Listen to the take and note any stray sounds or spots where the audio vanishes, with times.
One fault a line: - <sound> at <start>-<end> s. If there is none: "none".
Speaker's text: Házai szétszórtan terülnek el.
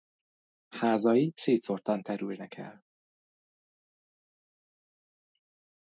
none